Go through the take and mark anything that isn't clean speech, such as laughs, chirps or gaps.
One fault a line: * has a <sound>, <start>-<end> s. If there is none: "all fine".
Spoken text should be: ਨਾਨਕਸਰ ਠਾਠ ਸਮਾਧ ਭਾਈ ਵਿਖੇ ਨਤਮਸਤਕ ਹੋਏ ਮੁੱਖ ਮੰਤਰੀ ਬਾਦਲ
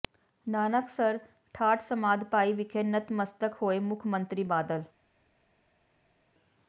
all fine